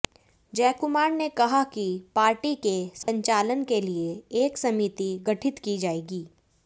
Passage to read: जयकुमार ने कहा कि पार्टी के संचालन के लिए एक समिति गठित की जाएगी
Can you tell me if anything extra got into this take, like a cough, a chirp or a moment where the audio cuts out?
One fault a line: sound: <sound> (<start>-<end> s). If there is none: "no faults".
sound: dropout (3.0-3.1 s)